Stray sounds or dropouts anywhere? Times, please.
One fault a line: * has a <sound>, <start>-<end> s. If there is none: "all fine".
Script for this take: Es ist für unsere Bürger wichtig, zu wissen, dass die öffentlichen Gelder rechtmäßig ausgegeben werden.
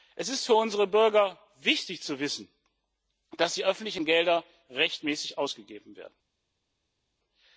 all fine